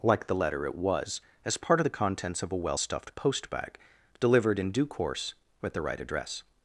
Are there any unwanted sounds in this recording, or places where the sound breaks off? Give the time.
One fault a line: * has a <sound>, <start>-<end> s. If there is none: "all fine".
all fine